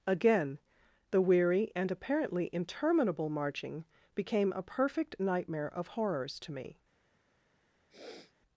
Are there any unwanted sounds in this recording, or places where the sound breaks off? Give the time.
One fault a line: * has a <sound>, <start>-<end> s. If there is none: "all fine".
* has a sniff, 7.9-8.3 s